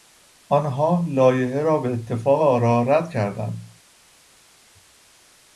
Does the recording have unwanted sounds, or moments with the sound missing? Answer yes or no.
no